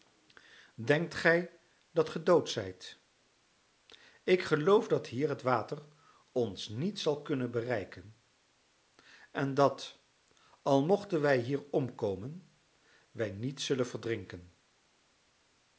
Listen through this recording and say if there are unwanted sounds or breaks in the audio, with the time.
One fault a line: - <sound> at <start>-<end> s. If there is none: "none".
none